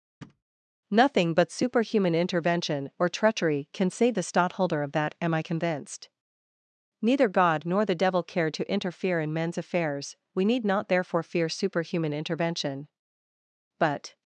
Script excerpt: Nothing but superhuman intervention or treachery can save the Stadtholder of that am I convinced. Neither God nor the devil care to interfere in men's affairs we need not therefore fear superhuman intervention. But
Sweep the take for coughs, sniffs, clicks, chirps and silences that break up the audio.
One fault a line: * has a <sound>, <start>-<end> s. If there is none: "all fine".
* has a thud, 0.2-0.4 s